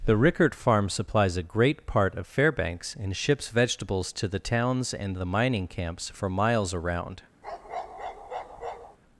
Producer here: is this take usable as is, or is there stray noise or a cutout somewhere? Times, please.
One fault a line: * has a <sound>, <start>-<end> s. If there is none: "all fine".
* has a bark, 7.4-9.0 s